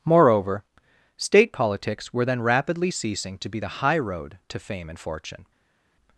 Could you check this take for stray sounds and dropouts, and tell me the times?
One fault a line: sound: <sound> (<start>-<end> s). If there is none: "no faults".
no faults